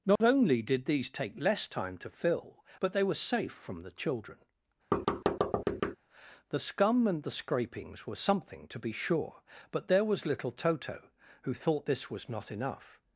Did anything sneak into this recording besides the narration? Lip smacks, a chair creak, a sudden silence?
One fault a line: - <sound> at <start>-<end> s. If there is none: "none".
- dropout at 0.2-0.2 s
- thud at 4.9-6.0 s